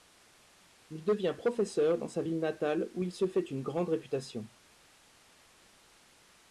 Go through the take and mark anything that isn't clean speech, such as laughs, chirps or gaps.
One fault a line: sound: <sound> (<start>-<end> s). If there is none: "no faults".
no faults